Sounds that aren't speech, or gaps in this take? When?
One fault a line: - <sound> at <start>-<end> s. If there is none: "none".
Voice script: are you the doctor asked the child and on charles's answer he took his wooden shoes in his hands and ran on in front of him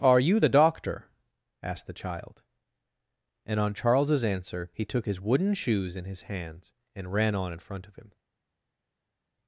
none